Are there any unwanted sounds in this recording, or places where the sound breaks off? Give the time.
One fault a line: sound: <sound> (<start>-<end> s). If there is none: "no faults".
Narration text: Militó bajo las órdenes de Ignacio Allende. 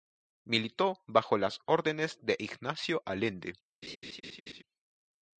sound: laugh (3.8-4.6 s)